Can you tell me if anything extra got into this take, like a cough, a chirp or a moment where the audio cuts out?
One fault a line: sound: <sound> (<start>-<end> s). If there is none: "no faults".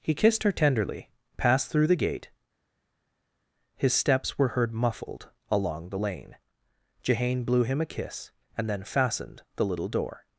no faults